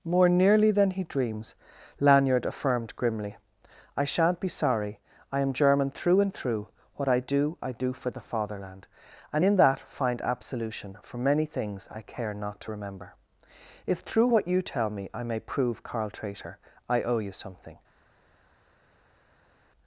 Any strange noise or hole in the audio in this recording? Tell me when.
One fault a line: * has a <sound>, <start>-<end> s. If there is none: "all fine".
all fine